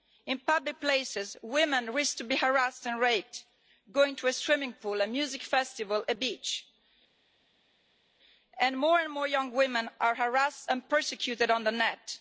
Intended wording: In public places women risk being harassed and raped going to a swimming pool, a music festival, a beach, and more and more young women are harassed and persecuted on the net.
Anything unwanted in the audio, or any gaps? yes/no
no